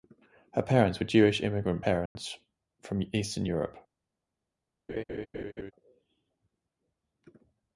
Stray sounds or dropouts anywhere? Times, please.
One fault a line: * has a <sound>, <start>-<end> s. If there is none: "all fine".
* has a dropout, 2.1-2.2 s
* has a laugh, 4.9-5.7 s